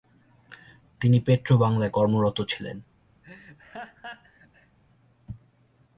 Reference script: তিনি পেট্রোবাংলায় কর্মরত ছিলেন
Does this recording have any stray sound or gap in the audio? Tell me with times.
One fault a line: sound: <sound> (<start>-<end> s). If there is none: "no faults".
sound: laugh (3.2-4.8 s)